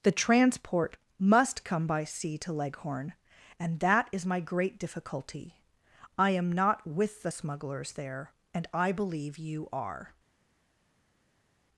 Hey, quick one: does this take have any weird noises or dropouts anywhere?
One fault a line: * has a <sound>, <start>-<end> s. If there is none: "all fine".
all fine